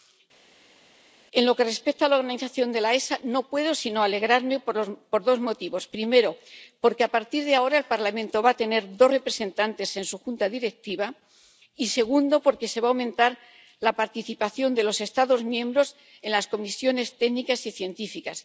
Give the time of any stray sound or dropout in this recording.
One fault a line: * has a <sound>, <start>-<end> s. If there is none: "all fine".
all fine